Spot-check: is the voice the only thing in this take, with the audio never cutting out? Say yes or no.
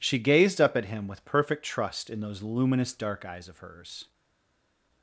yes